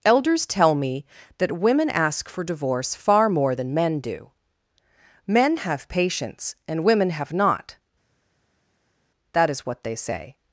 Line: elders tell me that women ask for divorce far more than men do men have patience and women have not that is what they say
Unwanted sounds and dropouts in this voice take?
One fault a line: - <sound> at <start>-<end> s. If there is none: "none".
none